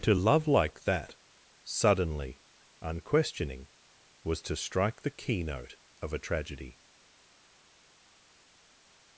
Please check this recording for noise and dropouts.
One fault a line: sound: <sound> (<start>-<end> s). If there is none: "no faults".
no faults